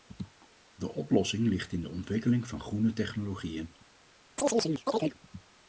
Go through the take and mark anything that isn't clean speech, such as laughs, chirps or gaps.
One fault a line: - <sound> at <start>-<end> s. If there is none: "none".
- chirp at 4.4-5.2 s